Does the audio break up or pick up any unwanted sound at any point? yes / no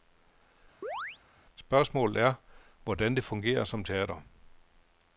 yes